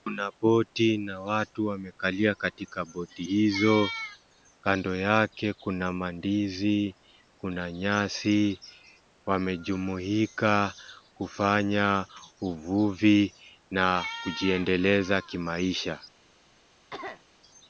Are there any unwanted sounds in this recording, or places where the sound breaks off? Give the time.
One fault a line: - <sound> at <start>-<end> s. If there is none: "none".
- cough at 16.9-17.2 s